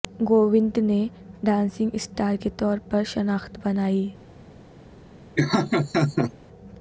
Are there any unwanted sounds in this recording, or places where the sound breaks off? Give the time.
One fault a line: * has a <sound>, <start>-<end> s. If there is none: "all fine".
* has a laugh, 5.4-6.3 s